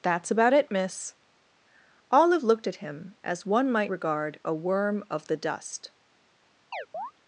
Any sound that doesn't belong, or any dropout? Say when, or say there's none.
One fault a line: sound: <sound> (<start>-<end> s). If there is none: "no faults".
sound: chirp (6.7-7.1 s)